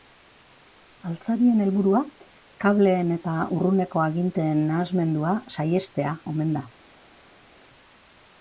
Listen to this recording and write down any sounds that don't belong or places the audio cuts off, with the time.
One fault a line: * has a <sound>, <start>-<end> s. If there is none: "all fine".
all fine